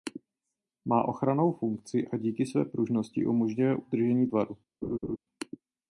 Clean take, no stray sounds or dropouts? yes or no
no